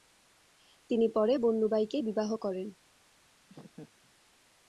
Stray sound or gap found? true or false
true